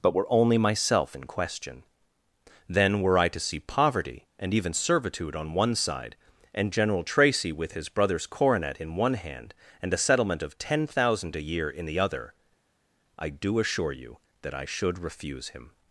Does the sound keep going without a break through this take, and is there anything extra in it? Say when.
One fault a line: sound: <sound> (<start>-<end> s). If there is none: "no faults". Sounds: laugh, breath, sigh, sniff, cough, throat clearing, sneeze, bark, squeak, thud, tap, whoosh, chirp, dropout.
no faults